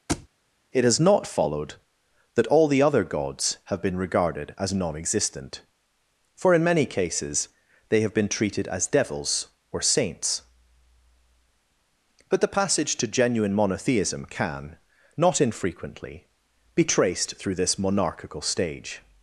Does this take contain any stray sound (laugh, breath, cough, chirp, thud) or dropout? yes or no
yes